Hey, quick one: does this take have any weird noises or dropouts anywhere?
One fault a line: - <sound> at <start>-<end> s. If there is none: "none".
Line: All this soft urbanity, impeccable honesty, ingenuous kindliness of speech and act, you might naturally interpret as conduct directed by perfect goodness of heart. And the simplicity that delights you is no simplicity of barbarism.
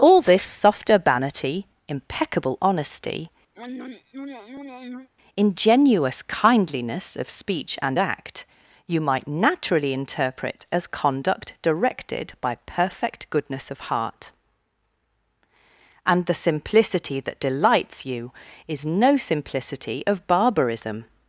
- throat clearing at 3.5-5.1 s